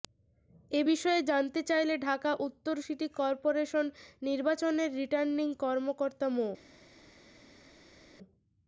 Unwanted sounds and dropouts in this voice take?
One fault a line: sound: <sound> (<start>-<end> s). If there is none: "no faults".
no faults